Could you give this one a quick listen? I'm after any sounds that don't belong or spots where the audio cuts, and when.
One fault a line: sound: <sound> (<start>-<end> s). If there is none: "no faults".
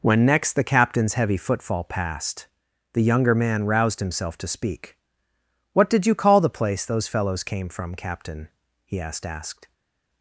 no faults